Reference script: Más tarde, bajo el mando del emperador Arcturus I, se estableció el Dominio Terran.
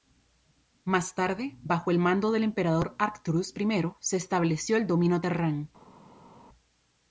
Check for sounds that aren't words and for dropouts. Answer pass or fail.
pass